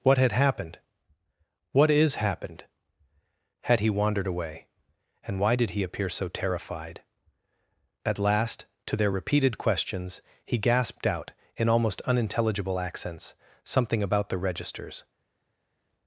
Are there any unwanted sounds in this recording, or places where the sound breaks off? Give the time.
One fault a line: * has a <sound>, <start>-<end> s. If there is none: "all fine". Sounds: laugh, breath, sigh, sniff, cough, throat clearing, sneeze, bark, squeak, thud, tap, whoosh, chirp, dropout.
all fine